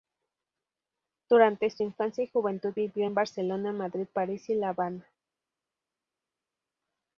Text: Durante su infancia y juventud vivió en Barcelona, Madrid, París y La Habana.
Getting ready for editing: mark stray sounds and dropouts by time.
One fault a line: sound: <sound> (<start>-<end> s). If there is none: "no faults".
no faults